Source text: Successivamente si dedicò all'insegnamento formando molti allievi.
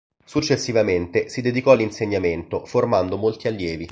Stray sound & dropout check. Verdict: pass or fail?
pass